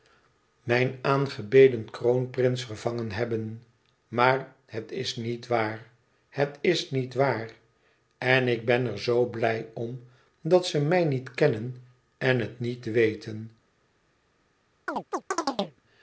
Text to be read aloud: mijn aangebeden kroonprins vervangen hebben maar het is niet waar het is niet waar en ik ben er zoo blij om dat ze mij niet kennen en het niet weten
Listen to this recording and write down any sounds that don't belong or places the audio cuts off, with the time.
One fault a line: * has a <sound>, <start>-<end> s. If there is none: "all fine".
* has a chirp, 14.9-15.8 s